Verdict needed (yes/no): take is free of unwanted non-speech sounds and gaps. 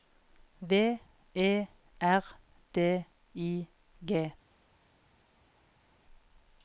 yes